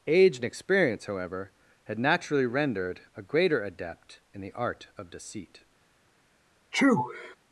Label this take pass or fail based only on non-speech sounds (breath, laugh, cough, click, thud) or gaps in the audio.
fail